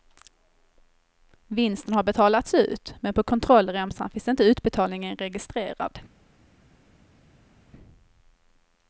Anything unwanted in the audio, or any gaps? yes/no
no